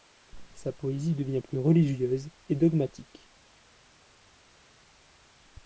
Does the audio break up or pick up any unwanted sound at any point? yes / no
no